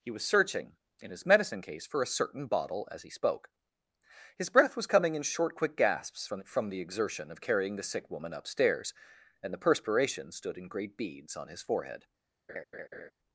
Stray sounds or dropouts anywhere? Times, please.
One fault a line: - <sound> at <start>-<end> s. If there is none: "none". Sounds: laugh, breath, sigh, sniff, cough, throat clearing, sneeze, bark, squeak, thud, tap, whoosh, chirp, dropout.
- laugh at 12.5-13.1 s